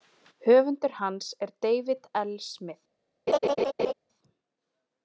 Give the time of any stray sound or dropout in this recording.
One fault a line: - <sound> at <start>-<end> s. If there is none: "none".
- laugh at 3.3-3.9 s